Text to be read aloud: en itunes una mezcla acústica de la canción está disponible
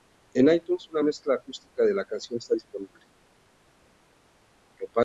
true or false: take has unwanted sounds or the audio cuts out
false